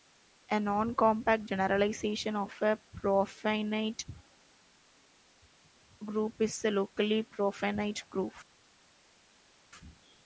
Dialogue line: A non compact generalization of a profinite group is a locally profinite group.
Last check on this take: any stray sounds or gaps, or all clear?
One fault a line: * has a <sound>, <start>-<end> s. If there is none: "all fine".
all fine